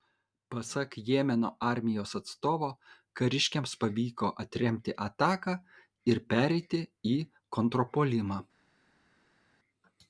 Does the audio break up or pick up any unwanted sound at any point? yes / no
no